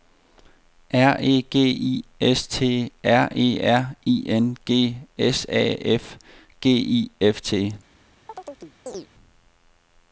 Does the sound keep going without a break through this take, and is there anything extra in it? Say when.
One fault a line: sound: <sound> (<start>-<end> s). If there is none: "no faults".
sound: chirp (8.3-9.1 s)